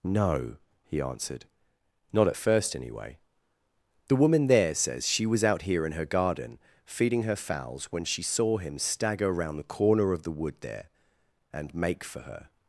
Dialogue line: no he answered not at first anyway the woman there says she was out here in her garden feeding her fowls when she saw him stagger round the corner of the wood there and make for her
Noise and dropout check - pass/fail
pass